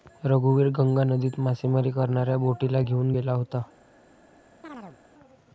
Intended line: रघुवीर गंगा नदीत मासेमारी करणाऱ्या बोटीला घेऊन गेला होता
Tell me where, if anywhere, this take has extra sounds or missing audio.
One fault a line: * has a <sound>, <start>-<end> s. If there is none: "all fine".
* has a chirp, 4.6-5.0 s